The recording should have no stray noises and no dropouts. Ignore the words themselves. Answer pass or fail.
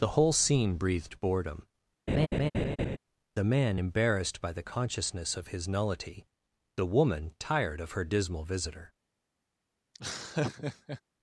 fail